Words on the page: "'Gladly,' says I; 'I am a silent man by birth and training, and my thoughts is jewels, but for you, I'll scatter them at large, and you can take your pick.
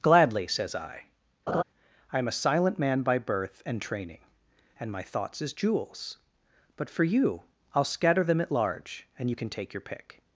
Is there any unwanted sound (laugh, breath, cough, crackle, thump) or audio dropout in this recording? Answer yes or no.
yes